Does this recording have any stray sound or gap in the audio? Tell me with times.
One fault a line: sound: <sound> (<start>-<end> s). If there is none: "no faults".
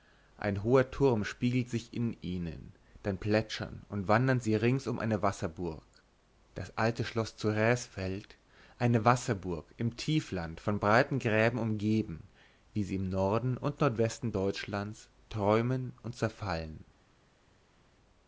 no faults